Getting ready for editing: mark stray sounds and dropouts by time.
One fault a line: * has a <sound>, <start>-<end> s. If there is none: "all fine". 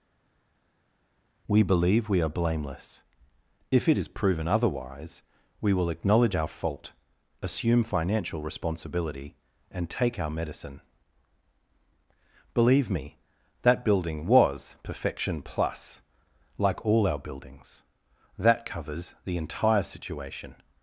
all fine